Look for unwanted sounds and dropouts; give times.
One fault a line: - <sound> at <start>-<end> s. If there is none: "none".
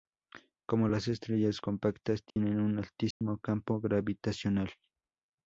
- dropout at 2.3-2.4 s
- dropout at 3.1-3.2 s